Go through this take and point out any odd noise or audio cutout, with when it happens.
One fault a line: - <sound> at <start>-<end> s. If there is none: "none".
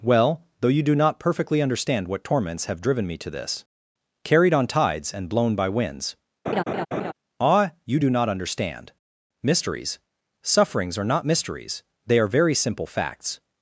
- laugh at 6.5-7.1 s